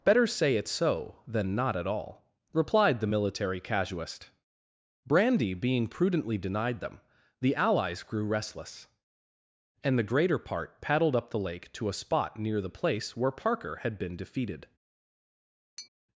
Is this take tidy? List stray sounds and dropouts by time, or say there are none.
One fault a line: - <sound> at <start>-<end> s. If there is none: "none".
- tap at 15.8-15.9 s